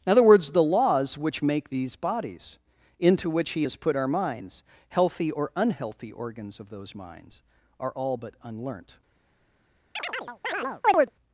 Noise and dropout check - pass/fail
fail